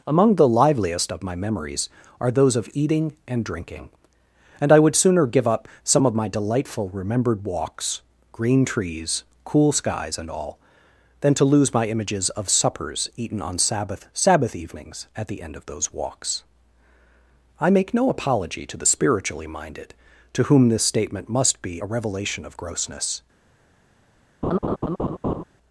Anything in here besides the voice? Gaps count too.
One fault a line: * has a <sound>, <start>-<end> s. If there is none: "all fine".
* has a laugh, 24.4-25.4 s